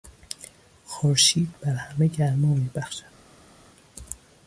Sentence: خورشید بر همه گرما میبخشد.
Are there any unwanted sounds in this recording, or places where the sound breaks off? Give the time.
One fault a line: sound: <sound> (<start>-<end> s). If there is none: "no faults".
no faults